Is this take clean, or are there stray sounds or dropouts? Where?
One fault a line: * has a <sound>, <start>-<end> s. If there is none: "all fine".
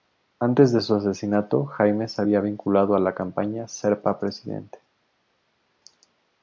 all fine